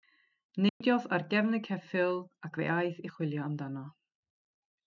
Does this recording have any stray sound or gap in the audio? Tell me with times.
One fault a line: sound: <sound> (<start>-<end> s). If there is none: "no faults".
sound: dropout (0.7-0.8 s)